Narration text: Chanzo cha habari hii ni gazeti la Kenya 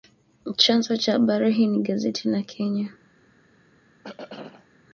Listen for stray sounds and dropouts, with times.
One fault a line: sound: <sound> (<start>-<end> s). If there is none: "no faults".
sound: throat clearing (4.0-4.7 s)